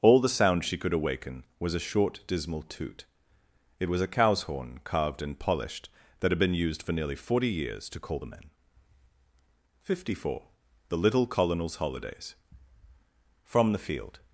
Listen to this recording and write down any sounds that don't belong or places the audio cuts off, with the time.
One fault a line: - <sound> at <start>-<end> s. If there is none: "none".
none